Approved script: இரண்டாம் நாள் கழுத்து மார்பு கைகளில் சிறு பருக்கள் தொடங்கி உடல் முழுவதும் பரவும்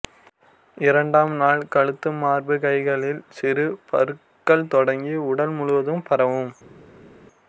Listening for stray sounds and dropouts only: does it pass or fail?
pass